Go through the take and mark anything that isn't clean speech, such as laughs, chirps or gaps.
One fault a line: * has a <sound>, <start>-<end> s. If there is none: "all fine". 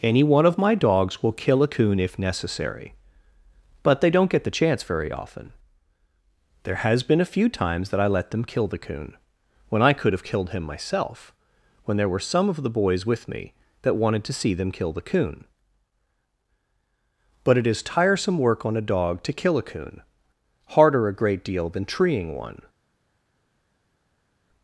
all fine